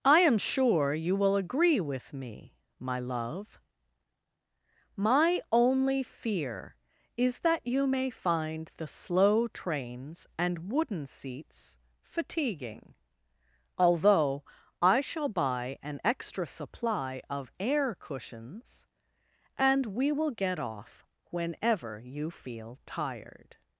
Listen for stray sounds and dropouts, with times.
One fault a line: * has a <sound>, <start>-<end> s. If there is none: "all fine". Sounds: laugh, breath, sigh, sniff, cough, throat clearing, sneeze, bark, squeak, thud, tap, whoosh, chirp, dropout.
all fine